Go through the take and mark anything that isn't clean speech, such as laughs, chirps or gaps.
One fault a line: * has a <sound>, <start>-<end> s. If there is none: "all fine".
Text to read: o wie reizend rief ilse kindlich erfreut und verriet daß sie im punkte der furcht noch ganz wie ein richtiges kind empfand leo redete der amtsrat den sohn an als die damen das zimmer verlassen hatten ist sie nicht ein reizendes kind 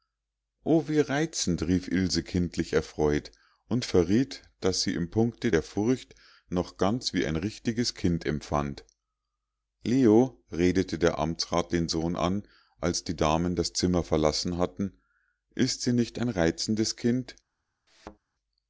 * has a thud, 17.9-18.2 s